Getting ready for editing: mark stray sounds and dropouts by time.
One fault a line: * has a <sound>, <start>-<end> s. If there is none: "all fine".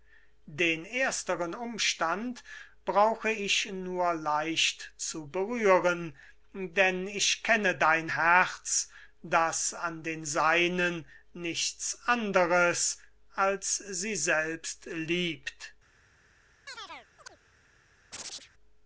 * has a chirp, 16.7-17.4 s
* has a chirp, 18.1-18.5 s